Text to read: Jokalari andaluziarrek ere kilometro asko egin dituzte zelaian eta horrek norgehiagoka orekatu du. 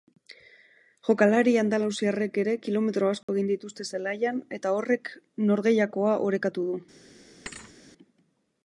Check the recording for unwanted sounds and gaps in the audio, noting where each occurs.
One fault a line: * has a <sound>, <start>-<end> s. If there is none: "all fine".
* has a dropout, 3.2-3.3 s
* has a thud, 7.5-7.7 s